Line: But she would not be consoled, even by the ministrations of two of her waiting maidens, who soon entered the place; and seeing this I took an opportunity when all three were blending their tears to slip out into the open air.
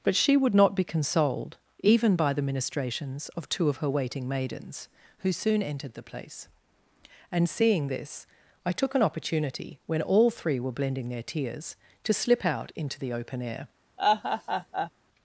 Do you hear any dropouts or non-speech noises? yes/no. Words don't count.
yes